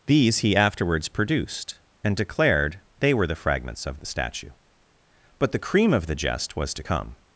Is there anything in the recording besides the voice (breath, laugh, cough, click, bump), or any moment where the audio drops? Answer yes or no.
no